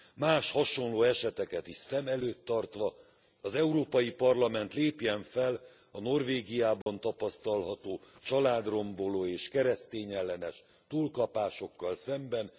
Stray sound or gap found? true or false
true